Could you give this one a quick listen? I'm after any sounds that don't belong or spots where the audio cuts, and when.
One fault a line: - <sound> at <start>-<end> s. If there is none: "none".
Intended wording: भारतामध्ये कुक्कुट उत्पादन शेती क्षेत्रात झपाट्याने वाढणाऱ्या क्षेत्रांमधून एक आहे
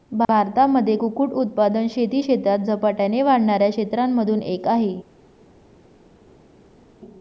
none